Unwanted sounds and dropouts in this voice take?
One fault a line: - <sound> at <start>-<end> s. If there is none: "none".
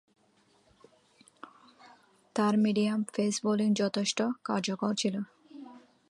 none